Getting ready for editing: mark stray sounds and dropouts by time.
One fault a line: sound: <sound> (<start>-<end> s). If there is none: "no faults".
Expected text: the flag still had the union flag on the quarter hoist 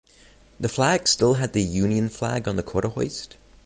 no faults